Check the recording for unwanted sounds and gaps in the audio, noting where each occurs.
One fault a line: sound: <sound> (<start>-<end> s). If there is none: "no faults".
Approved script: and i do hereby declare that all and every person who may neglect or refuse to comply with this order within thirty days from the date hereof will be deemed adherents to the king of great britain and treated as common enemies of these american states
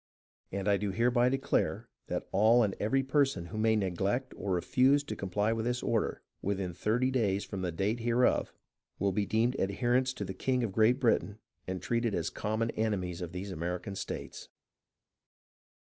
no faults